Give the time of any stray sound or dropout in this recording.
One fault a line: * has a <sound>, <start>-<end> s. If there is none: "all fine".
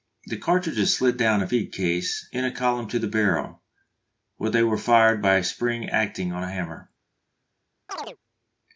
* has a chirp, 7.9-8.2 s